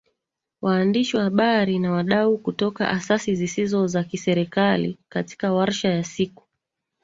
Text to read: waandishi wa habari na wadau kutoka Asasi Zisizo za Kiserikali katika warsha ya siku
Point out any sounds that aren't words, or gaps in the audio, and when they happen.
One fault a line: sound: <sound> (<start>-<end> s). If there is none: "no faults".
no faults